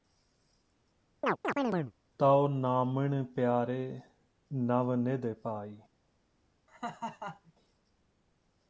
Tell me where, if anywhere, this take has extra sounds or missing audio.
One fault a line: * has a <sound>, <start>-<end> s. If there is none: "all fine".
* has a chirp, 1.2-1.9 s
* has a laugh, 6.7-7.5 s